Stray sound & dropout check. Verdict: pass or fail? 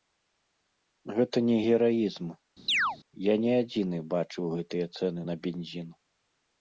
fail